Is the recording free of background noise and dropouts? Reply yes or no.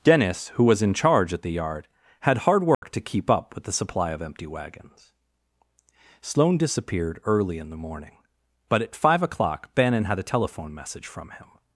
no